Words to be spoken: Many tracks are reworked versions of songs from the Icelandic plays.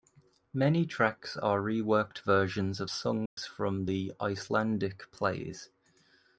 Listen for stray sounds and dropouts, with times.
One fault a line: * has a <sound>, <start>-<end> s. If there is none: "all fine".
* has a dropout, 3.3-3.4 s